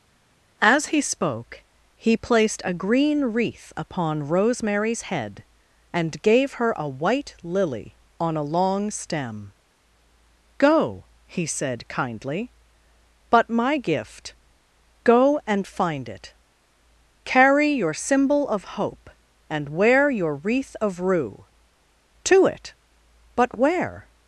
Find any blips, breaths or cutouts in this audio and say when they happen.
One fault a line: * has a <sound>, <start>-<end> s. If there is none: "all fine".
all fine